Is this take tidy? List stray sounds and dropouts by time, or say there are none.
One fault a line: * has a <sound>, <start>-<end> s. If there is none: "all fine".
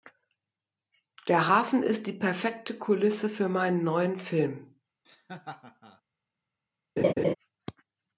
* has a laugh, 5.0-6.0 s
* has a laugh, 7.0-7.3 s